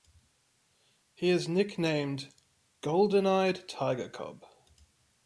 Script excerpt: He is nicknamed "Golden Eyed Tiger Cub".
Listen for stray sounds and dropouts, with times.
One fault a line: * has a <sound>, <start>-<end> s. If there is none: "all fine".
all fine